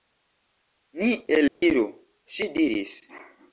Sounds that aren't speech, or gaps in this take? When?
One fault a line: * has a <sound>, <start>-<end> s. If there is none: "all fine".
* has a dropout, 1.5-1.6 s